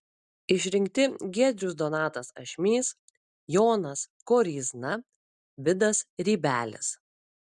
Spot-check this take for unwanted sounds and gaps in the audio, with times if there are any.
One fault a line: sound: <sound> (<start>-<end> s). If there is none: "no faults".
no faults